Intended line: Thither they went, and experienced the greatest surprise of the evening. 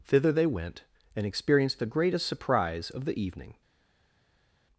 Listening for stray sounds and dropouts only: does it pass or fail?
pass